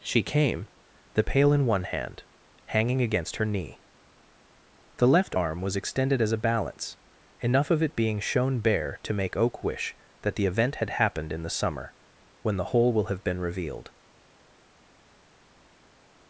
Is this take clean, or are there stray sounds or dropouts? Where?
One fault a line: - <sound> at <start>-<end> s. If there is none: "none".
none